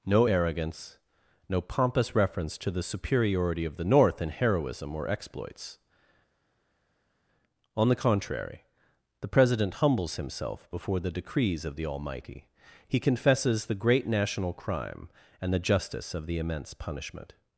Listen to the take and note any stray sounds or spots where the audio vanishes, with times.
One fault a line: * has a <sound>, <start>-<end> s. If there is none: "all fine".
all fine